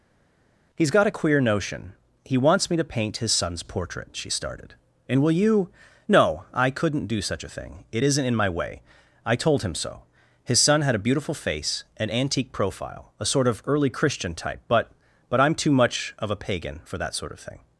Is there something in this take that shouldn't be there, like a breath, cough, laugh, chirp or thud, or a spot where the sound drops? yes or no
no